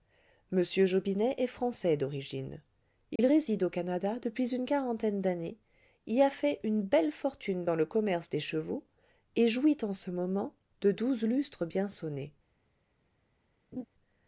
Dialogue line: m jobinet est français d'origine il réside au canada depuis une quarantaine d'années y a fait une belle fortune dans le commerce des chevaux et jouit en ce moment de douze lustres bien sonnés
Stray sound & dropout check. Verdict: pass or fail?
fail